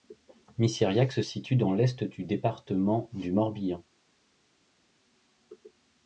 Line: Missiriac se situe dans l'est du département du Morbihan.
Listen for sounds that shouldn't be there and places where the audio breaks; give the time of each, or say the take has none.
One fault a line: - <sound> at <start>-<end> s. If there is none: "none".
none